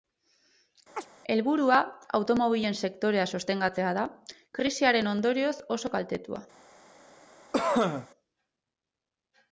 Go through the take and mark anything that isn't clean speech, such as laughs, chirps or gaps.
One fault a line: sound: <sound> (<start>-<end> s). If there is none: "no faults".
sound: chirp (1.0-1.1 s)
sound: cough (7.5-8.1 s)